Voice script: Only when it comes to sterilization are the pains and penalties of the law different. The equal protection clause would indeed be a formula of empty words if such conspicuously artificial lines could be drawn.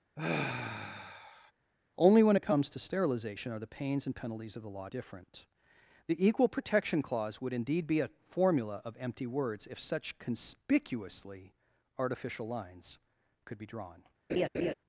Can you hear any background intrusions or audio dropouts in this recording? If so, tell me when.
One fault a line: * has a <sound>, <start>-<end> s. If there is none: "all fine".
* has a sigh, 0.2-1.5 s
* has a laugh, 14.3-14.7 s